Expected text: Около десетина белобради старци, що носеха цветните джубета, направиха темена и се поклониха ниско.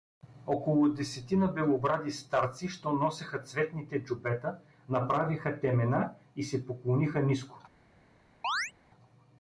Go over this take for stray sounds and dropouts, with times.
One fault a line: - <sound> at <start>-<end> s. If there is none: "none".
- chirp at 8.4-8.7 s